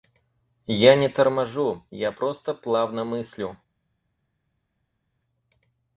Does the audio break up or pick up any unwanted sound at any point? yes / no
no